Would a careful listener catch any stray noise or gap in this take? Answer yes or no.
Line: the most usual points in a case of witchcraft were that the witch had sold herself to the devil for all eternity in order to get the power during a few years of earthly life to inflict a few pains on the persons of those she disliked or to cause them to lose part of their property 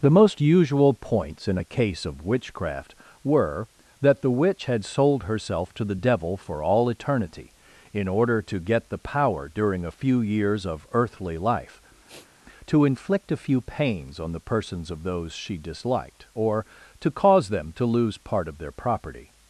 yes